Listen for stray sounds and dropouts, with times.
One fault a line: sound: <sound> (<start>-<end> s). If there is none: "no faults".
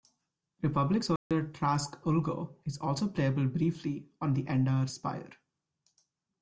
sound: dropout (1.2-1.3 s)